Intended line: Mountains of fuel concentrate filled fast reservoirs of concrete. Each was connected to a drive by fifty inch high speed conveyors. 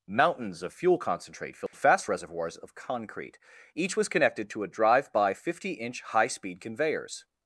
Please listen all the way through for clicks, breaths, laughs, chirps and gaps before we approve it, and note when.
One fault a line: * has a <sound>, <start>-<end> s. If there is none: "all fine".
* has a dropout, 1.7-1.7 s